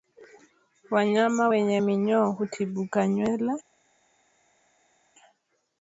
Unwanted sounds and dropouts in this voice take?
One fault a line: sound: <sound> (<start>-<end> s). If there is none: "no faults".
no faults